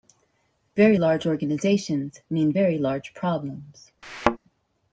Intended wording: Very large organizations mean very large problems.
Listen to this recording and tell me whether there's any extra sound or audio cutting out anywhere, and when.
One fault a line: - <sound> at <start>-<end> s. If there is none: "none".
- thud at 4.0-4.4 s